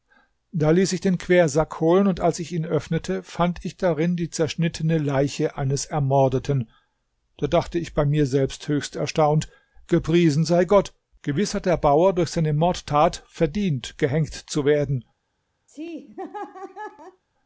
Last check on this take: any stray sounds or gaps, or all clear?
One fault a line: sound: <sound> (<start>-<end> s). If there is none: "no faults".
sound: laugh (15.7-17.2 s)